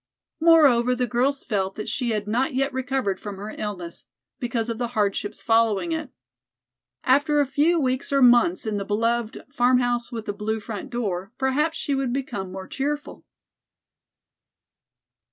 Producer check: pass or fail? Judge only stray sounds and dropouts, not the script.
pass